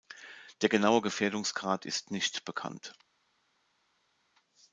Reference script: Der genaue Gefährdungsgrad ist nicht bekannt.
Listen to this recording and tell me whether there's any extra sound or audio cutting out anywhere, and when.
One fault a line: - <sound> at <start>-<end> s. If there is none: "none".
none